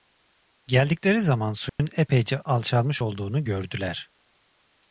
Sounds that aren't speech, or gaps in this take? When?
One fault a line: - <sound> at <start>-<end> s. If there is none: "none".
- dropout at 1.7-1.8 s